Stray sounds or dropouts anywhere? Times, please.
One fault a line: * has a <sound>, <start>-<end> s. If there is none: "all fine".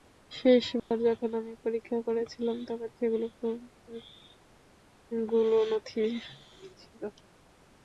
* has a dropout, 0.8-0.9 s